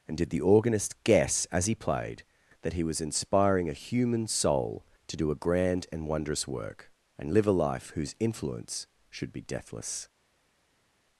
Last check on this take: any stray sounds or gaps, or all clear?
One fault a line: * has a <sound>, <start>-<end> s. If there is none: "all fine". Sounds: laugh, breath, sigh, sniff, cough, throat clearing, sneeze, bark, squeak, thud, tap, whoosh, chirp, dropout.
all fine